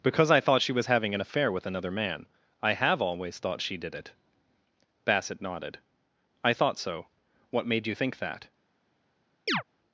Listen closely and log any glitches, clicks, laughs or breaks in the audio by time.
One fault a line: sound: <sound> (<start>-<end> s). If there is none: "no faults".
sound: chirp (9.5-9.6 s)